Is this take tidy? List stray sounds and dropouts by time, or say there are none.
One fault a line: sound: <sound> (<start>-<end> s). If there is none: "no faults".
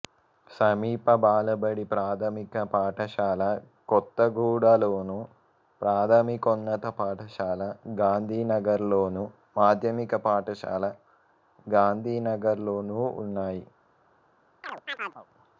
sound: chirp (14.6-15.3 s)